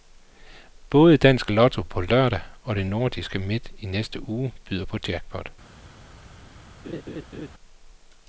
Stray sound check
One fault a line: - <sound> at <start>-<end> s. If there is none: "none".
- laugh at 6.8-7.5 s